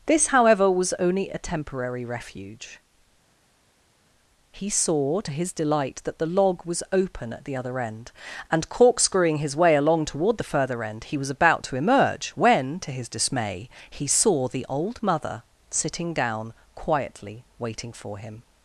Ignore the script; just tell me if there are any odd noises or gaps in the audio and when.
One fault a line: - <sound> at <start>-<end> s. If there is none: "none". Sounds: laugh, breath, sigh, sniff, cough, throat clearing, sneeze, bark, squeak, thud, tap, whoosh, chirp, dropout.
none